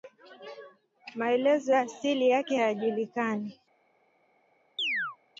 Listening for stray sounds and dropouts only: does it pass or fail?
fail